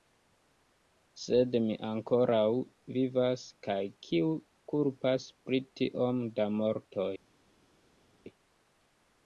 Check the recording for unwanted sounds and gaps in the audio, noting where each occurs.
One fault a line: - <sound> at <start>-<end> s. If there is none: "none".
none